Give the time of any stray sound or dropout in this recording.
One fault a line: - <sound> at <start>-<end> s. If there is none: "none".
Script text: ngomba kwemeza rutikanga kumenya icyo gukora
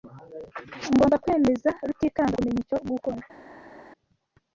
none